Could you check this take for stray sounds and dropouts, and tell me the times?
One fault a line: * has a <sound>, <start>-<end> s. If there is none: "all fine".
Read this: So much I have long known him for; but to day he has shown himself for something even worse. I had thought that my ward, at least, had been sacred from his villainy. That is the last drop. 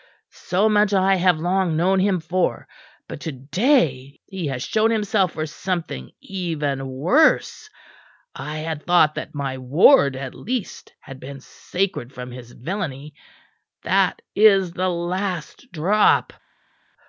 all fine